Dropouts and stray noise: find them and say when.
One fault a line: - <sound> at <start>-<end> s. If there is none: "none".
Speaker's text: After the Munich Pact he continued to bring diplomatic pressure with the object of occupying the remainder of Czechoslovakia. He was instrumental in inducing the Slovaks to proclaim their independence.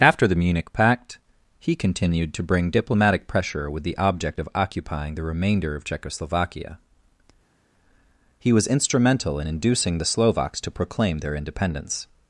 none